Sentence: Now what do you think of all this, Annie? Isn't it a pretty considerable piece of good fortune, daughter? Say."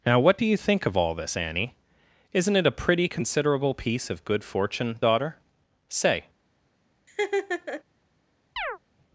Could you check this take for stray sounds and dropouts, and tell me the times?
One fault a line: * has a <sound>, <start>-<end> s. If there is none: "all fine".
* has a laugh, 7.1-7.8 s
* has a chirp, 8.6-8.8 s